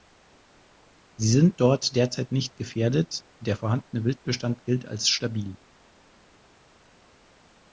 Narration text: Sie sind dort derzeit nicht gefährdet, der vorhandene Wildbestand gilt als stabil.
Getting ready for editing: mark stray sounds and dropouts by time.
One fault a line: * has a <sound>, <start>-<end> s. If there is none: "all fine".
all fine